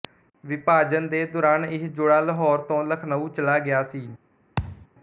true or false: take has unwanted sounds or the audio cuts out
true